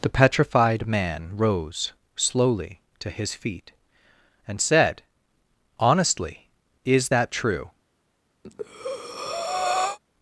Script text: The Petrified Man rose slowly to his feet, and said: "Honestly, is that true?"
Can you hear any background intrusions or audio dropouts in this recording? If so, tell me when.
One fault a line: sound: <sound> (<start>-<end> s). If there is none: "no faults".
sound: breath (8.4-10.0 s)